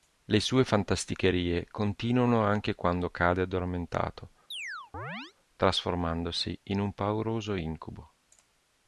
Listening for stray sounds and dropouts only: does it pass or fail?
fail